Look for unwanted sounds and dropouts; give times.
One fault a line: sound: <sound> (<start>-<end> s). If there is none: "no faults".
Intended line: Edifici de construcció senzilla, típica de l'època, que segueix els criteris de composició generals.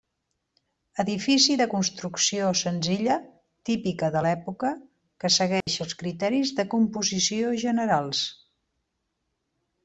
sound: dropout (5.6-5.7 s)